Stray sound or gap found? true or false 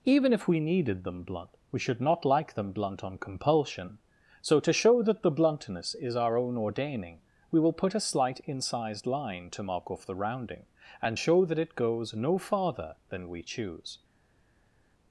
false